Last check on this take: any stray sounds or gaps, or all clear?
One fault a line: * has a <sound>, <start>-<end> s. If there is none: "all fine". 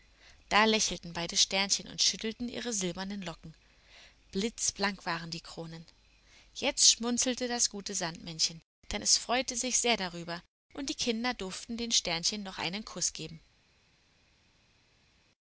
all fine